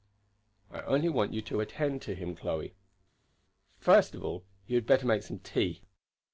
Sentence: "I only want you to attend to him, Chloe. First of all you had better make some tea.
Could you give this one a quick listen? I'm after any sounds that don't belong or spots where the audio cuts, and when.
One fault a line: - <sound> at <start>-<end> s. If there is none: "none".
none